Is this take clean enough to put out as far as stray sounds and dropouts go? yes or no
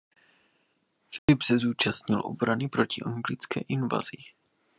no